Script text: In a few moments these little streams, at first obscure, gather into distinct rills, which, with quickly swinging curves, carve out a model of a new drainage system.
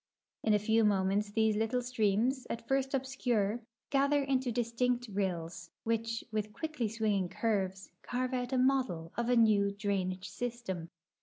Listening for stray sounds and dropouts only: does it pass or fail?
pass